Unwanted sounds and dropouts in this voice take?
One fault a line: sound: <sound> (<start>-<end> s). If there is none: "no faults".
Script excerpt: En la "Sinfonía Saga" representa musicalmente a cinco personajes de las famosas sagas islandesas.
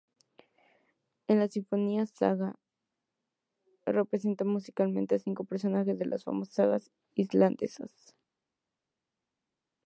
no faults